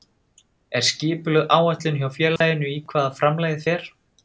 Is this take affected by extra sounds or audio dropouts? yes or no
yes